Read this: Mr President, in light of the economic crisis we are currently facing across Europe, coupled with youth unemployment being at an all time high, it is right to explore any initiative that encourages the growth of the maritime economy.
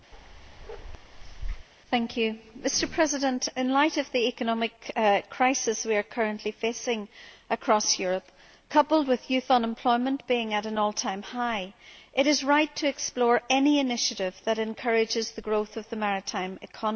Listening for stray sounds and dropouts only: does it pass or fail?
fail